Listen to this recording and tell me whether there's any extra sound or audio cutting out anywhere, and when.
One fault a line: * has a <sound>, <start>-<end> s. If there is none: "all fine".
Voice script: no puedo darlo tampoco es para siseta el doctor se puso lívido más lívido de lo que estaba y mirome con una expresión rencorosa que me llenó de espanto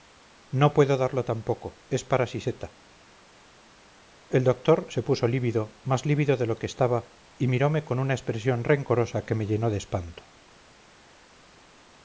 all fine